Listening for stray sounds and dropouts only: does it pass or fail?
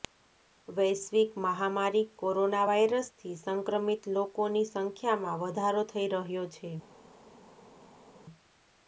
pass